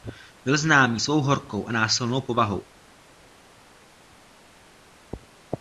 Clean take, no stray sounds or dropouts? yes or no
yes